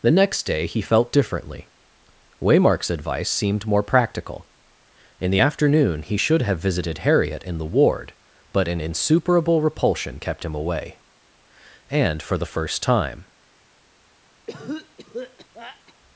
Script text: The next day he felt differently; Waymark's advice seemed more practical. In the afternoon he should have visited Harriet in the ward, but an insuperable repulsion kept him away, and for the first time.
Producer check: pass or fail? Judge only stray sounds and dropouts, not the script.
fail